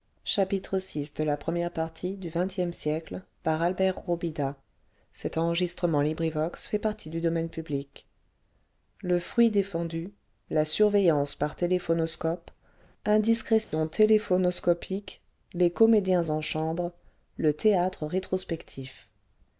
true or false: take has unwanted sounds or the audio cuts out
true